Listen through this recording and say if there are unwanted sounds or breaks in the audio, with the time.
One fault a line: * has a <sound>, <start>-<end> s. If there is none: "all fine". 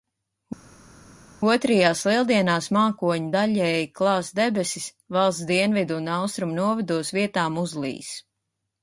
all fine